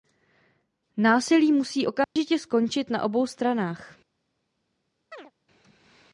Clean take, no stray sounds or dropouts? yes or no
no